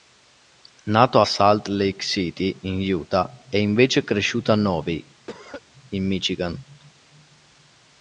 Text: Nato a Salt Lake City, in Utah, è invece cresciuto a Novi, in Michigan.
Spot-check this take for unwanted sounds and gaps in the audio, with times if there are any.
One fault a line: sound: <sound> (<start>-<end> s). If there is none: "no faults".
sound: cough (5.3-5.6 s)